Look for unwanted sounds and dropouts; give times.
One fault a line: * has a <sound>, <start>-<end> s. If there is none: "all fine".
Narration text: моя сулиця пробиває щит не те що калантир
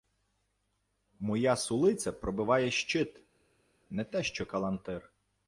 all fine